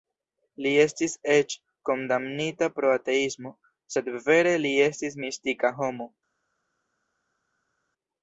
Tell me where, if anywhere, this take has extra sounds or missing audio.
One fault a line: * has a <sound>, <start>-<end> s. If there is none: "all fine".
all fine